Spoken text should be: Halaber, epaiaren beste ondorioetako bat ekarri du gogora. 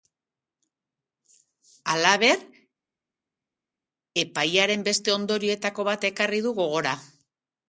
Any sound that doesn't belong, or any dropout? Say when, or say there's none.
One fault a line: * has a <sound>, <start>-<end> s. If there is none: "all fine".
all fine